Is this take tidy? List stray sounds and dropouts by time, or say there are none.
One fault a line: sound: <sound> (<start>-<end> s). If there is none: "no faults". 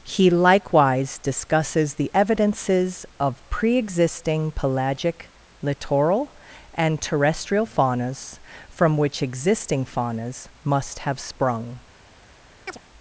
sound: chirp (12.7-12.8 s)